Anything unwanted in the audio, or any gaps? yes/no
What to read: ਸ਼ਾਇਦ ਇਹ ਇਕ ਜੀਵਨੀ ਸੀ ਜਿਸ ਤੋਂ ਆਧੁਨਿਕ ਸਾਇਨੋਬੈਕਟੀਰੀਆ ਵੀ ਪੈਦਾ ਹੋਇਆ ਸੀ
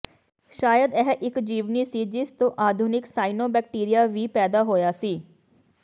no